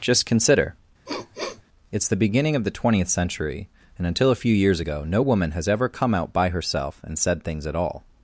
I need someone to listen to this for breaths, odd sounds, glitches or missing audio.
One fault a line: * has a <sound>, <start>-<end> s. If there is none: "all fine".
* has a sniff, 1.1-1.6 s